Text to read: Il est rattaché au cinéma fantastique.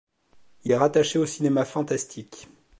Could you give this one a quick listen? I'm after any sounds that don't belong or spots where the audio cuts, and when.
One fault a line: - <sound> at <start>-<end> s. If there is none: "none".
none